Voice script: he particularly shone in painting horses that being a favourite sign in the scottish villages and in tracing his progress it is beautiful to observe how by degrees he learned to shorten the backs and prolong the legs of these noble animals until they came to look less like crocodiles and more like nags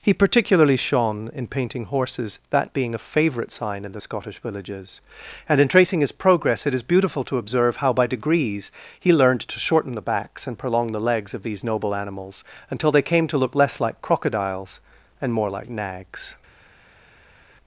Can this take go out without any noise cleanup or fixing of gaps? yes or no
yes